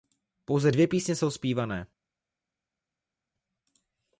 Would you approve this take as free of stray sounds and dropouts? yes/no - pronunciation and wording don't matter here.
yes